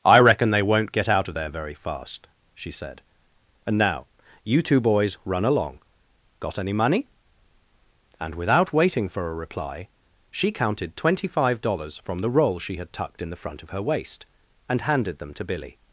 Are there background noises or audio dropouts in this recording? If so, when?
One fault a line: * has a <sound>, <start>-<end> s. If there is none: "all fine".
all fine